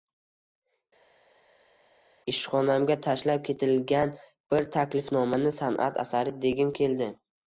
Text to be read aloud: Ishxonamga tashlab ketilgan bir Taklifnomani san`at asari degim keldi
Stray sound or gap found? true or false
false